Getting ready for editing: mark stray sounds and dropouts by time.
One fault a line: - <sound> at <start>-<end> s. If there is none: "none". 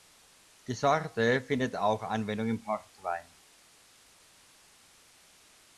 none